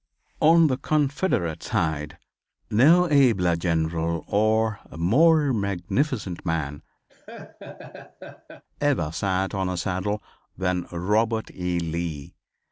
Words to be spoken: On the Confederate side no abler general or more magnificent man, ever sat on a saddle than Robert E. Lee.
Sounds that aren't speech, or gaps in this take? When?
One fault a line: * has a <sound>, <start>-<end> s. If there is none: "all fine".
* has a laugh, 7.1-8.6 s